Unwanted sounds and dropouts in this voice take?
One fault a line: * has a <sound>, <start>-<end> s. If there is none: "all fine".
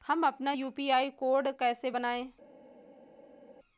all fine